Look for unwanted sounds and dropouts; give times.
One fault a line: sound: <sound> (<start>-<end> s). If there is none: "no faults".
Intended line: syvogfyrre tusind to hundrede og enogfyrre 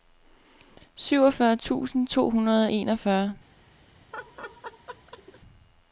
sound: laugh (4.1-5.4 s)